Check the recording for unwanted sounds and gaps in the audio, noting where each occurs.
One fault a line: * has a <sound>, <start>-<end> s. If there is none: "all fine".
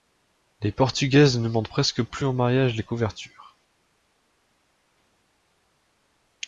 all fine